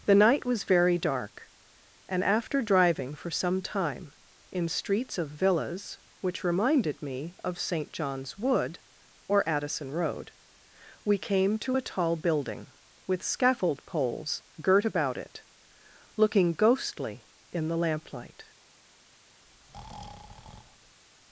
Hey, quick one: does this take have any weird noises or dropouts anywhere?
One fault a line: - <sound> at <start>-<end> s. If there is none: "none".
- breath at 19.5-21.0 s